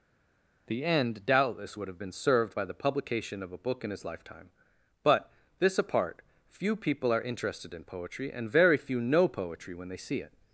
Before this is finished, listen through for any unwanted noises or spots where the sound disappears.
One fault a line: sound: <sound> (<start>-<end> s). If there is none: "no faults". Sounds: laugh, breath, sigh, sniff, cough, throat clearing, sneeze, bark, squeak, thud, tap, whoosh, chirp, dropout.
no faults